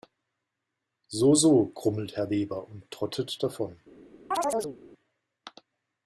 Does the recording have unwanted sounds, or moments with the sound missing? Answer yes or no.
yes